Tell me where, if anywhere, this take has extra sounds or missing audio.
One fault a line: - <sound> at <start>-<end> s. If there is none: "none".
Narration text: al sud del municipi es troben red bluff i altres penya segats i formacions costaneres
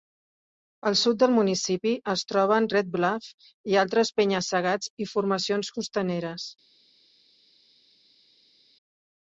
none